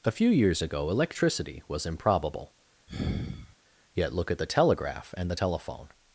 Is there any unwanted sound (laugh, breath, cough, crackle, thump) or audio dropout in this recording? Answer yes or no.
yes